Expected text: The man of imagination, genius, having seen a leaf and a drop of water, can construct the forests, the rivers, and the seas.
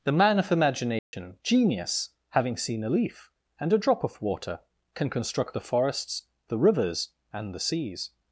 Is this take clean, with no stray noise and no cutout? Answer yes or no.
no